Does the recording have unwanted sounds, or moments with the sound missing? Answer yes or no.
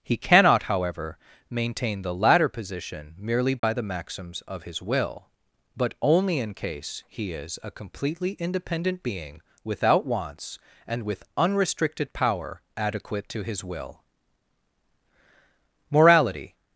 yes